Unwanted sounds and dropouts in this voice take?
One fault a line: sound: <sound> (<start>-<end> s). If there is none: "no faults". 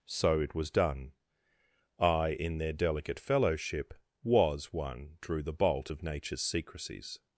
no faults